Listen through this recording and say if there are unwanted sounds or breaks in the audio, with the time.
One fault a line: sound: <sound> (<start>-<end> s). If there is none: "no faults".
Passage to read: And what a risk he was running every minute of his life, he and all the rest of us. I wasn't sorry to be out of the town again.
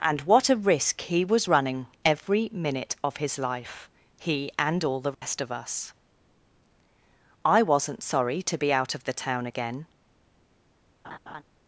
sound: dropout (5.1-5.2 s)
sound: laugh (11.0-11.4 s)